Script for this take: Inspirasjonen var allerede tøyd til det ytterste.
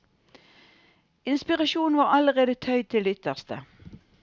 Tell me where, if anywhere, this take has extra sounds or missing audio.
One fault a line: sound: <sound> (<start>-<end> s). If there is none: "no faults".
no faults